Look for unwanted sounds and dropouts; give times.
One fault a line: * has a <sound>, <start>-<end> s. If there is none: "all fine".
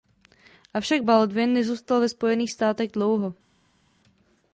all fine